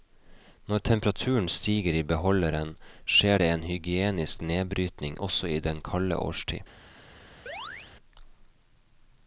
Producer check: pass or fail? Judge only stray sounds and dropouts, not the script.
fail